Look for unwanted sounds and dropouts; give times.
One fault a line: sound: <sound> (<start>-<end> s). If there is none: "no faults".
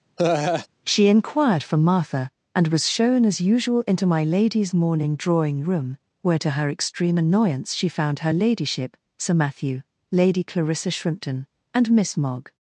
sound: laugh (0.2-0.7 s)